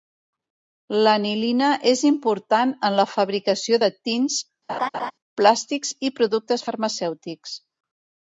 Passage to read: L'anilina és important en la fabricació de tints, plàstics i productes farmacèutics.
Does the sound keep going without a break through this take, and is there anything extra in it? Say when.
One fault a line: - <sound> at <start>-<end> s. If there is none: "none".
- laugh at 4.7-5.1 s